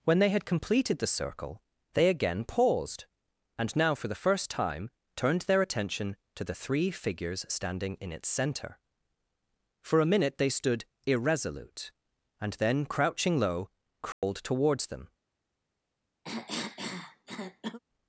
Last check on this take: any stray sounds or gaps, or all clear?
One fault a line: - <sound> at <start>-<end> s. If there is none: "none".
- dropout at 14.1-14.2 s
- cough at 16.2-17.8 s